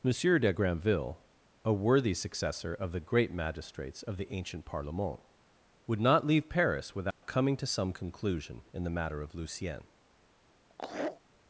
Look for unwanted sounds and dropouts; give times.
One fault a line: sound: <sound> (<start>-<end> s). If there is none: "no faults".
sound: dropout (7.1-7.2 s)
sound: laugh (10.7-11.2 s)